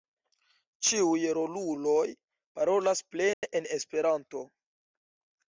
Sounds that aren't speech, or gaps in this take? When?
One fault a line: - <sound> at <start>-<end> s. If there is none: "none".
- dropout at 3.3-3.4 s